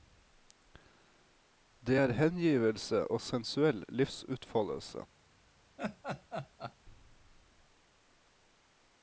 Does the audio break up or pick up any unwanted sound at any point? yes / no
yes